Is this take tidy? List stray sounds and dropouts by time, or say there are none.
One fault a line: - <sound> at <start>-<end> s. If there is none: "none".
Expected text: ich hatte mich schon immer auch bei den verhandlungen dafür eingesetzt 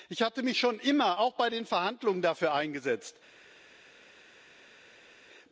none